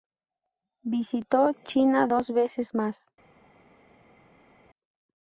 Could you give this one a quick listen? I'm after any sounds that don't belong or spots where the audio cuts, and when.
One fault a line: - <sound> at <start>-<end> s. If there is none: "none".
none